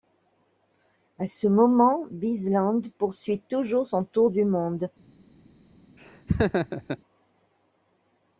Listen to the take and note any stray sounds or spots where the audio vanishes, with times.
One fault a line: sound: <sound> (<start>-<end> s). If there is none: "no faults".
sound: laugh (6.0-7.0 s)